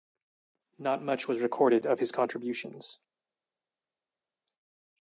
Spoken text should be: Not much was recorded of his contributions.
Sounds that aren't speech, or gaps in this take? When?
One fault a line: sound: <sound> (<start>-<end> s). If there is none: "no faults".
no faults